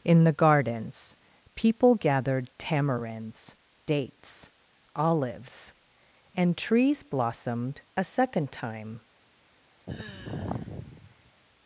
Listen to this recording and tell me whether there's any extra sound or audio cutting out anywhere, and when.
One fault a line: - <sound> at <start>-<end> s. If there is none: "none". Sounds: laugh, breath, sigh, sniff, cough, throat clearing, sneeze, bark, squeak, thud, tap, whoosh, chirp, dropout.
- sigh at 9.9-11.3 s